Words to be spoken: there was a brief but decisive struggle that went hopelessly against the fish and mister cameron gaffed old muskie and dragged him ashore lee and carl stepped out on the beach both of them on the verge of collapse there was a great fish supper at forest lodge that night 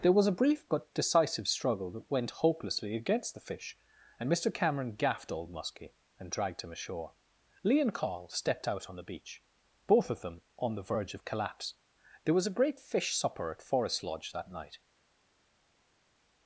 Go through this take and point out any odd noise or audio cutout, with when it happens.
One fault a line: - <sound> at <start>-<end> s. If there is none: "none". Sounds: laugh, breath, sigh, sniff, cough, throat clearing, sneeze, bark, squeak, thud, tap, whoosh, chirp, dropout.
none